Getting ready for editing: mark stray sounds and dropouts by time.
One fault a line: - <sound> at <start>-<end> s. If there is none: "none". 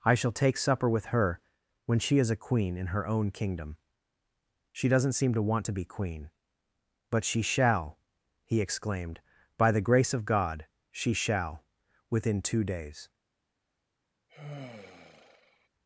- sigh at 14.3-15.7 s